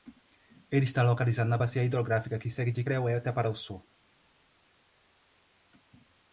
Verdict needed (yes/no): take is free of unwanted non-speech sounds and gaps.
yes